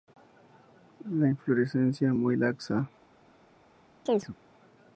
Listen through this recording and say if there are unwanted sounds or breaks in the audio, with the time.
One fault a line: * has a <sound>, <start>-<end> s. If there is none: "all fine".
* has a chirp, 4.1-4.4 s